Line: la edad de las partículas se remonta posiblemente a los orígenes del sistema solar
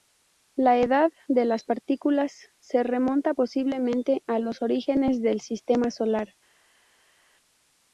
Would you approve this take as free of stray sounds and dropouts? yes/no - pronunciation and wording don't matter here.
yes